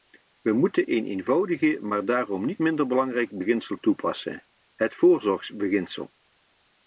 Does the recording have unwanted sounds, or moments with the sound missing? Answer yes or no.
no